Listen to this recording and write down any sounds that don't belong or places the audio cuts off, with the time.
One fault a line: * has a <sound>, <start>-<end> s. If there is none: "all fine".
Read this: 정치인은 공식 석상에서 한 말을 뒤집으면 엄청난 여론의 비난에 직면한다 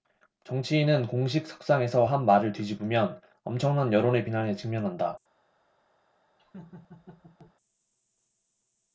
* has a laugh, 6.4-7.5 s